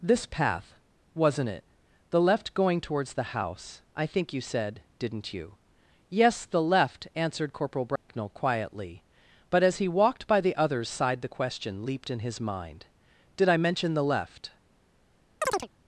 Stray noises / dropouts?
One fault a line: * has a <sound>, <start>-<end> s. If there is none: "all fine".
* has a dropout, 8.0-8.1 s
* has a chirp, 15.4-15.7 s